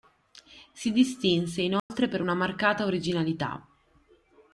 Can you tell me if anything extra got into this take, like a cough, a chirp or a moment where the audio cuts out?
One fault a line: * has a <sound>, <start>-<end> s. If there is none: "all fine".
* has a dropout, 1.8-1.9 s